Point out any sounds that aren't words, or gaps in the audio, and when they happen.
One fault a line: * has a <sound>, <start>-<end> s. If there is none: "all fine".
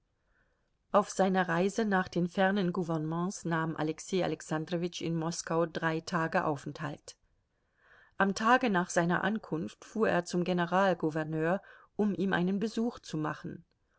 all fine